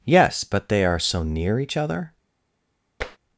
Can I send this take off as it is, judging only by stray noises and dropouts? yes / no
no